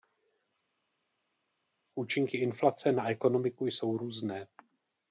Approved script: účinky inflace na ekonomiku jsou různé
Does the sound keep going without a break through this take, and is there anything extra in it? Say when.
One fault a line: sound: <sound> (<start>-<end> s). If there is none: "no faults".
no faults